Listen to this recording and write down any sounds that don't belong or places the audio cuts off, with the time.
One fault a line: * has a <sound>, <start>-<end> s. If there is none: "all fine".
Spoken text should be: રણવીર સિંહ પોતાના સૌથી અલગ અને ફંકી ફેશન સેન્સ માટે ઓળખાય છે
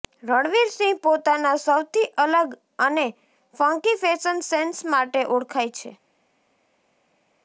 all fine